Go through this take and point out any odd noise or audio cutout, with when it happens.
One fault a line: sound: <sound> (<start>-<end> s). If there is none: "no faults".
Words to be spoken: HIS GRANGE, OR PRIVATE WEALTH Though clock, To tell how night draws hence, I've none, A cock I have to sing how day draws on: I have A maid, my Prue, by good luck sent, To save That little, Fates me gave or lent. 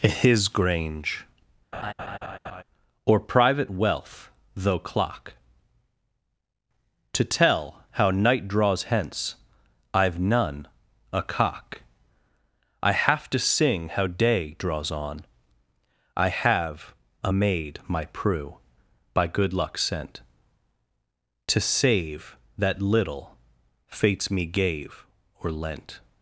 sound: laugh (1.7-2.6 s)